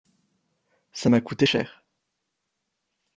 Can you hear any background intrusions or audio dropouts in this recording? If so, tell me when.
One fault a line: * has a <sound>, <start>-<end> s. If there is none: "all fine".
all fine